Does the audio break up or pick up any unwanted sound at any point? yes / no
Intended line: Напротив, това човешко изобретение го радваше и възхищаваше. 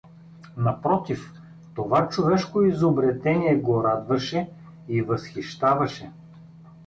no